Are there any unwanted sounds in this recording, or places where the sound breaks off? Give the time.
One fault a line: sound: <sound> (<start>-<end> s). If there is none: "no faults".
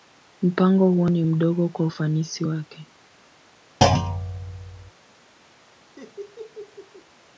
sound: thud (3.8-4.9 s)
sound: laugh (6.0-7.1 s)